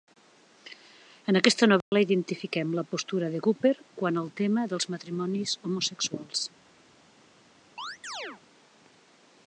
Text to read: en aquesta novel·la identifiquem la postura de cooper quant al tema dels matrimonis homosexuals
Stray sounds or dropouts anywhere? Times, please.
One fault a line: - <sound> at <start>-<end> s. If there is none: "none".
- dropout at 1.8-1.9 s
- chirp at 7.8-8.4 s